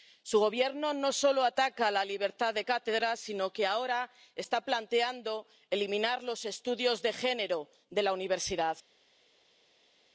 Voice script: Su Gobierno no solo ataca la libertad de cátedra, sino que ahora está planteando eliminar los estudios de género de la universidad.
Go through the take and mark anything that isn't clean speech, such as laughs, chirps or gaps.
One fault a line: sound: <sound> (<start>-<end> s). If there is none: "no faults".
no faults